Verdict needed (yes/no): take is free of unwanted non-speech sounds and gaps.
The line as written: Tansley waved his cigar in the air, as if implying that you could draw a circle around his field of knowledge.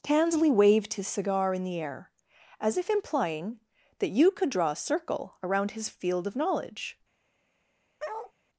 no